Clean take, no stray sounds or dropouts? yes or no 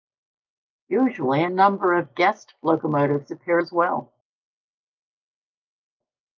yes